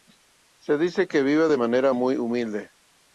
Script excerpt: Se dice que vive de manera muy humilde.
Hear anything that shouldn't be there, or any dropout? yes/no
no